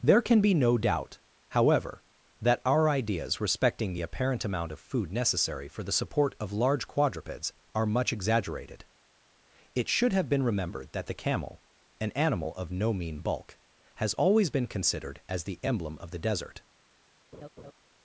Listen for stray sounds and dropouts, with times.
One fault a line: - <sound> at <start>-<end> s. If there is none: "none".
- laugh at 17.3-17.7 s